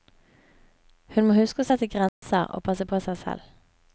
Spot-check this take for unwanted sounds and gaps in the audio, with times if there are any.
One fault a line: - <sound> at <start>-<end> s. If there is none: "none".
- dropout at 2.1-2.2 s